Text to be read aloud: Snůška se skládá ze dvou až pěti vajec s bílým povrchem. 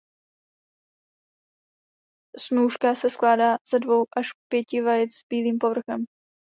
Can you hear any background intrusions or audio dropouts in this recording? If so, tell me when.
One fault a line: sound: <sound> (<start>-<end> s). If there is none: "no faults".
no faults